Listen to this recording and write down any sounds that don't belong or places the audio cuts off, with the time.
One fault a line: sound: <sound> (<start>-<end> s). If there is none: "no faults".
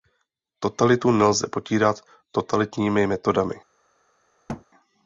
sound: thud (4.5-4.7 s)